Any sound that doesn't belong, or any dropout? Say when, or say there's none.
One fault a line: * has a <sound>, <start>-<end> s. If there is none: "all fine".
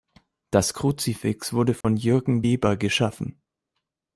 * has a dropout, 1.8-1.8 s